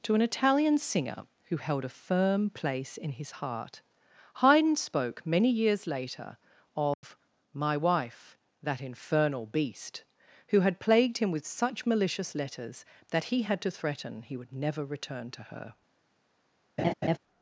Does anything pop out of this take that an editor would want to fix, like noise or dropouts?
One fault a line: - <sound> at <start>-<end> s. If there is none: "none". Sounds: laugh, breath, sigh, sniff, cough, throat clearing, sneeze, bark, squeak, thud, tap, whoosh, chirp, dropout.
- dropout at 6.9-7.0 s
- laugh at 16.8-17.2 s